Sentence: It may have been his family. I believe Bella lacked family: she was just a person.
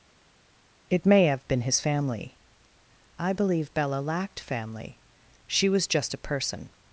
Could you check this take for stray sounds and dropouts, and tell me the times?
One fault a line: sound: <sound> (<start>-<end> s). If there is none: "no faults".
no faults